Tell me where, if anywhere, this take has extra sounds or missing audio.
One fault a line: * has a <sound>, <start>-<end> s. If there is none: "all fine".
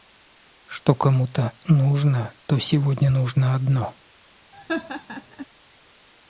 * has a laugh, 4.5-5.5 s